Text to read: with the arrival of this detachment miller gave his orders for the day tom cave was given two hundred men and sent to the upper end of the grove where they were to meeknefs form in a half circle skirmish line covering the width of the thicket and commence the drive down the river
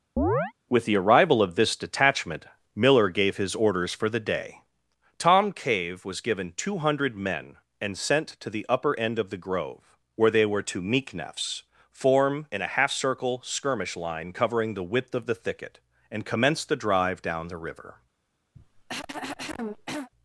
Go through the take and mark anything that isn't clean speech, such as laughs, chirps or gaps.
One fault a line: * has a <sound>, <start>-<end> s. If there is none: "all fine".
* has a chirp, 0.2-0.5 s
* has a cough, 18.5-20.1 s